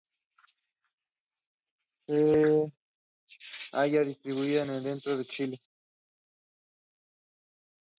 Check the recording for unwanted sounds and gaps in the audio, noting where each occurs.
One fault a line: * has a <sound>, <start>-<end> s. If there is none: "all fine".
all fine